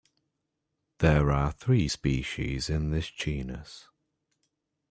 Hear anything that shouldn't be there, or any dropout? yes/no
no